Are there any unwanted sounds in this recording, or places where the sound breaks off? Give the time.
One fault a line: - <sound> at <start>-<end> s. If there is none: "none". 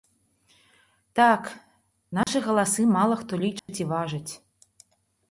- dropout at 2.2-2.3 s
- dropout at 3.6-3.7 s